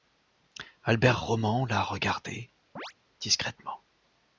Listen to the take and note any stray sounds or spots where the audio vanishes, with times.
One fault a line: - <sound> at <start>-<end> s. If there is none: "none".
- chirp at 2.8-2.9 s